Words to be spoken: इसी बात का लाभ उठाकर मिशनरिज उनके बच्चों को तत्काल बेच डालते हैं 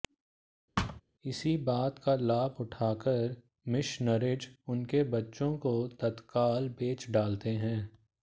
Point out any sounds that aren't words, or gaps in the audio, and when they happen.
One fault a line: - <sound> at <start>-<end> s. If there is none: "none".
- thud at 0.8-1.0 s